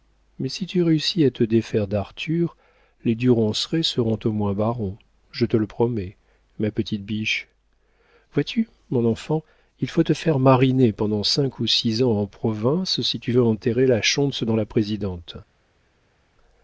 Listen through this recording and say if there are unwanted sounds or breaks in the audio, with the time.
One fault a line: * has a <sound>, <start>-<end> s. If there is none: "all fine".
all fine